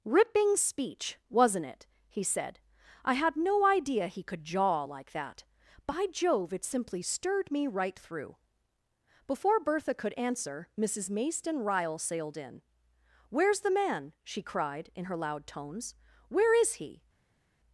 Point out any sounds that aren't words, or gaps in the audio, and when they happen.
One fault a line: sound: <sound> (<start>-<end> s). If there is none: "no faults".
no faults